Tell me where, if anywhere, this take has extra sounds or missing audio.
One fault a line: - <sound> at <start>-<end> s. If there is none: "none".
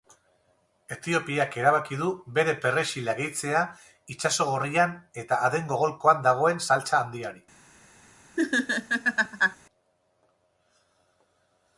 - laugh at 8.4-9.6 s